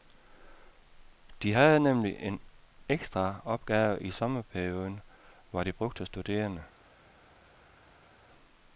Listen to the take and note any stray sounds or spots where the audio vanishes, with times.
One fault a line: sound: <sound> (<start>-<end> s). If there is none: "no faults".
no faults